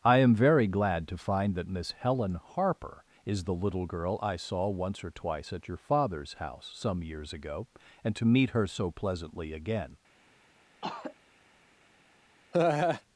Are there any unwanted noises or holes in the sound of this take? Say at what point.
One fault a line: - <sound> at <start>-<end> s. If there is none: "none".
- throat clearing at 10.8-11.2 s
- laugh at 12.5-13.0 s